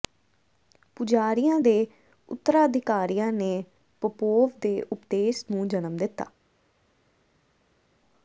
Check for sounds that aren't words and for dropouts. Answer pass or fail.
pass